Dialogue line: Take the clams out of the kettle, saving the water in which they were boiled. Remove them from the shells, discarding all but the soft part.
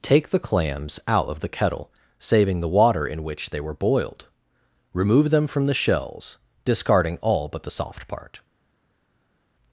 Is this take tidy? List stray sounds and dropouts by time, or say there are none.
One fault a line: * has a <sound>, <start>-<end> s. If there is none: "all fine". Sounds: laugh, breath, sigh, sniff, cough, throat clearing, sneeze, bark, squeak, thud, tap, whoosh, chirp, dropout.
all fine